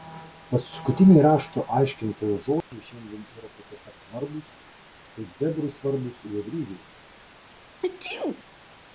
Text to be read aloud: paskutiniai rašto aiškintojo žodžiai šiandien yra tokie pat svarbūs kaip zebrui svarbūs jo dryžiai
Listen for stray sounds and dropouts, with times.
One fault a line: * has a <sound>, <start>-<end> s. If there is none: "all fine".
* has a dropout, 2.6-2.7 s
* has a sneeze, 7.8-8.4 s